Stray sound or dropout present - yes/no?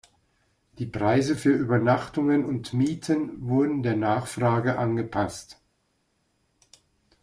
no